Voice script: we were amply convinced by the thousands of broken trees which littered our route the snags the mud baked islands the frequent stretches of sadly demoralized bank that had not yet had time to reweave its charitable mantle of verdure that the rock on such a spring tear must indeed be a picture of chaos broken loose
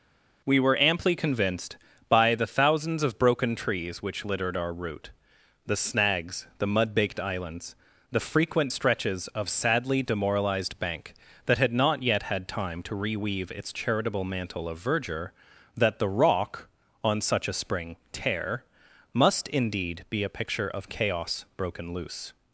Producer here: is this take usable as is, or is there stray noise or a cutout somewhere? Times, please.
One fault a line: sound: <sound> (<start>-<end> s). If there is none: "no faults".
no faults